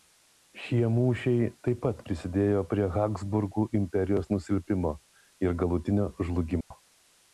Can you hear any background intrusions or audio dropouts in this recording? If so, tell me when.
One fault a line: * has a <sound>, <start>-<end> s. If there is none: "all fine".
* has a dropout, 6.6-6.7 s